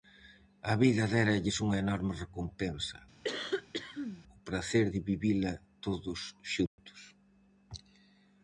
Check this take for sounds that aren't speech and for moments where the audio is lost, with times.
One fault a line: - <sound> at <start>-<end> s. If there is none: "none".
- cough at 3.2-4.2 s
- dropout at 6.7-6.8 s